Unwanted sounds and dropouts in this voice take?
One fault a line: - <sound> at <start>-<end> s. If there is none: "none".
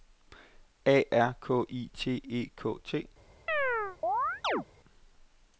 - chirp at 3.5-4.7 s